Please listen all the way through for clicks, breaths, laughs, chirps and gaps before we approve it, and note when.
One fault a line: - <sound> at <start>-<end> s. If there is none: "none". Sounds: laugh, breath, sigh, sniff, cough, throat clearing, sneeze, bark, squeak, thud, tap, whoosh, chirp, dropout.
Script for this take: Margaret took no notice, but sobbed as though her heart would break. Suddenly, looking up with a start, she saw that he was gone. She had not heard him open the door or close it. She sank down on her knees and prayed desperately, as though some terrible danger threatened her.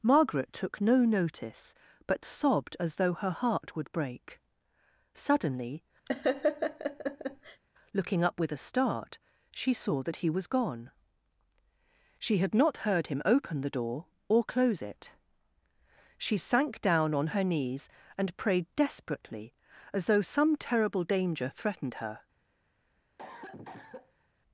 - laugh at 6.1-7.6 s
- cough at 23.2-24.3 s